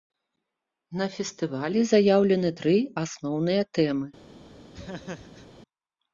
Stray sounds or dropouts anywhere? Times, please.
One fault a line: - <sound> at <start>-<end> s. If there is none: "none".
- laugh at 4.7-5.5 s